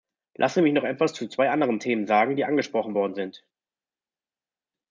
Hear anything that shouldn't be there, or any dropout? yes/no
no